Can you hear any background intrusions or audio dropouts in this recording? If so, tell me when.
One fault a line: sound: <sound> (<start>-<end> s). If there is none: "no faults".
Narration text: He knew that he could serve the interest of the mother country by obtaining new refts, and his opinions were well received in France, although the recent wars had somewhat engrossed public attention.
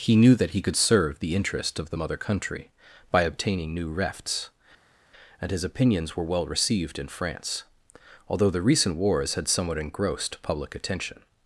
no faults